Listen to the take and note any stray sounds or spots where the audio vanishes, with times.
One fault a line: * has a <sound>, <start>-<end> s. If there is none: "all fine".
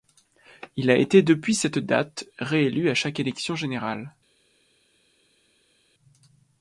all fine